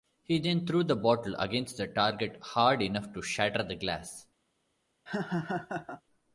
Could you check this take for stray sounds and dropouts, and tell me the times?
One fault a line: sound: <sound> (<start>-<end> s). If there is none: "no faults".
sound: laugh (5.1-6.0 s)